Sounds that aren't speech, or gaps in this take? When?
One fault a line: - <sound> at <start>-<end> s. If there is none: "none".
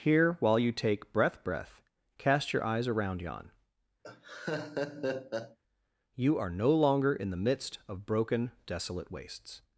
- laugh at 4.0-5.6 s